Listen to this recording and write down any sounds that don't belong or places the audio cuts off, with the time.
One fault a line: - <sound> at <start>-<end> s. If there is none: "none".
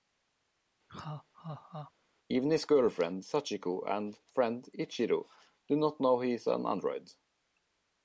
- laugh at 0.9-1.9 s